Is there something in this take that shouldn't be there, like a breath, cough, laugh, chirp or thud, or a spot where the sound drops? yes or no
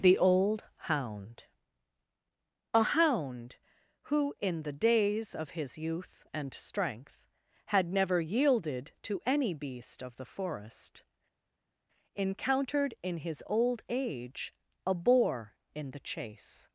no